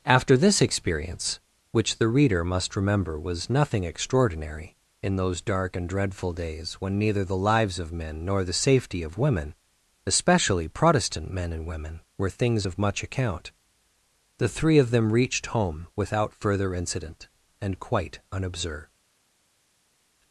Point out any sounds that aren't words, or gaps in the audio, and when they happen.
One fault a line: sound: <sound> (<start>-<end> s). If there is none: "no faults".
no faults